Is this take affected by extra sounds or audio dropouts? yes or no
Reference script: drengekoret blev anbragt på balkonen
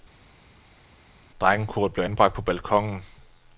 no